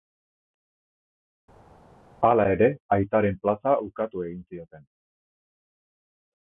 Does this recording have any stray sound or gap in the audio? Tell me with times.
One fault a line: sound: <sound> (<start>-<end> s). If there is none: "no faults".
no faults